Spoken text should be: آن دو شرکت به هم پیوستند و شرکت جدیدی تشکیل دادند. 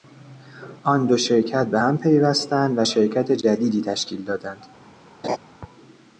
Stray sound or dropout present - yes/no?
yes